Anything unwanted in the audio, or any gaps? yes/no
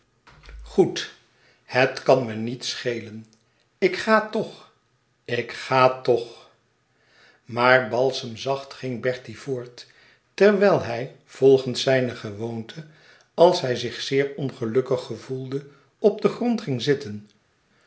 no